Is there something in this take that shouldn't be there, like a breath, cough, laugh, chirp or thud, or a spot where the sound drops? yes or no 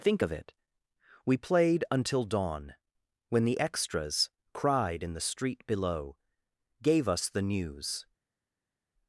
no